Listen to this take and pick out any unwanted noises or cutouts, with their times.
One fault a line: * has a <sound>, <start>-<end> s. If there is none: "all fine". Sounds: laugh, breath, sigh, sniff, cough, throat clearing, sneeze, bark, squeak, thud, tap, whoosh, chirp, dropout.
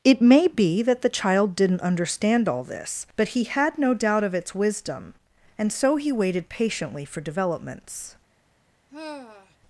* has a sigh, 8.9-9.6 s